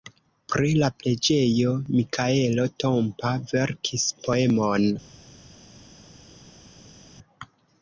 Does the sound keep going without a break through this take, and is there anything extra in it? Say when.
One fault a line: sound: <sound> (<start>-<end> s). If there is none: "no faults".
no faults